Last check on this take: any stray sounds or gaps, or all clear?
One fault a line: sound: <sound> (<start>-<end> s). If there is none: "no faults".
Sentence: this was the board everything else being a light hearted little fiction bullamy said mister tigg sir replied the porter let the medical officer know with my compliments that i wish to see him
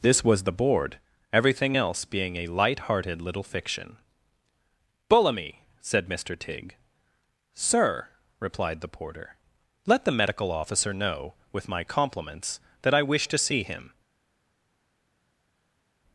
no faults